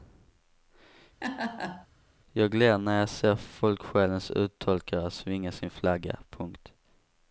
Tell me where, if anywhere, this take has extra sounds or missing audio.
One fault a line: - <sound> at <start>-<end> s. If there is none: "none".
- laugh at 1.2-1.9 s